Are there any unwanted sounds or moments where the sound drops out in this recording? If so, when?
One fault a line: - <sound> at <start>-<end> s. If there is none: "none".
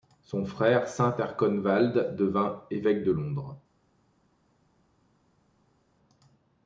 none